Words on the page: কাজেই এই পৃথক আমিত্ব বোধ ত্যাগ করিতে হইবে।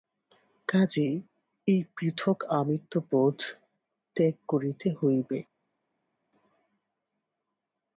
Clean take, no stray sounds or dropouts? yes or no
yes